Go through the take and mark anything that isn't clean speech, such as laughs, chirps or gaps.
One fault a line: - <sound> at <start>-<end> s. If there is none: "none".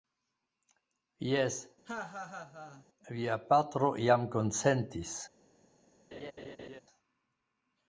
- laugh at 1.8-2.8 s
- laugh at 6.1-6.8 s